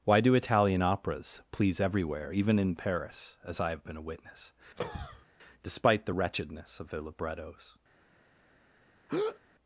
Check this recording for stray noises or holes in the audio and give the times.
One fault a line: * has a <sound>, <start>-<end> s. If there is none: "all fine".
* has a cough, 4.8-5.3 s
* has a breath, 9.1-9.4 s